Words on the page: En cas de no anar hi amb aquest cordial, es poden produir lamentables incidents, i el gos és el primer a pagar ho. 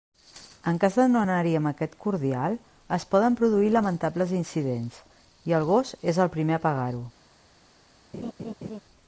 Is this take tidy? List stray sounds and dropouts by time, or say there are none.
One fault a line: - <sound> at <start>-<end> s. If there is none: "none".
- laugh at 8.1-8.8 s